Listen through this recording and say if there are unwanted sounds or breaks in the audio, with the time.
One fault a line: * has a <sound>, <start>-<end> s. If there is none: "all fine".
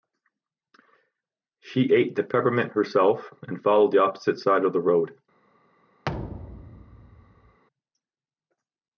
* has a thud, 6.0-7.6 s